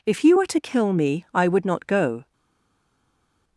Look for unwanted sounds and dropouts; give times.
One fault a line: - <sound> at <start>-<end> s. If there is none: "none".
none